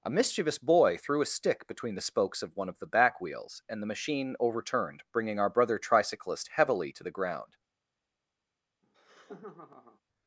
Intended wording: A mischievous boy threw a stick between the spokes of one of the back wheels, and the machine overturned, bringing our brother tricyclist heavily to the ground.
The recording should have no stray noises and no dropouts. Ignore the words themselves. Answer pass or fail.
fail